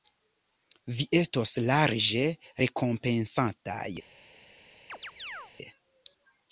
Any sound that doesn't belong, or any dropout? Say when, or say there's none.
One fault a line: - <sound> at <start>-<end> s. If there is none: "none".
- chirp at 4.9-5.5 s